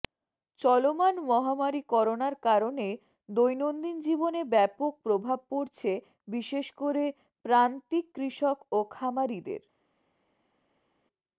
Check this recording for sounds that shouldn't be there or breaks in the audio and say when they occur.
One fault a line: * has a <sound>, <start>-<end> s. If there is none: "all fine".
all fine